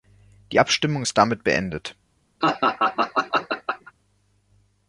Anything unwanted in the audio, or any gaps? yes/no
yes